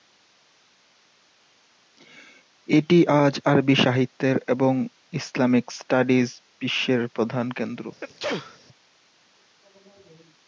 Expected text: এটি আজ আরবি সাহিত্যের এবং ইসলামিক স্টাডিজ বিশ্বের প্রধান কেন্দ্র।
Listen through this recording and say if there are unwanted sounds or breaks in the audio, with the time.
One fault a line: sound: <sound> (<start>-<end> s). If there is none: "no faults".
sound: sneeze (8.0-8.6 s)